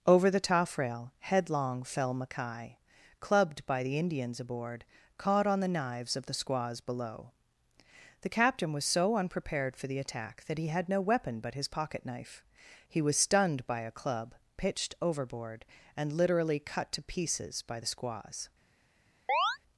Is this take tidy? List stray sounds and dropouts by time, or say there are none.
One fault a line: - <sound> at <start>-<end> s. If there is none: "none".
- chirp at 19.3-19.6 s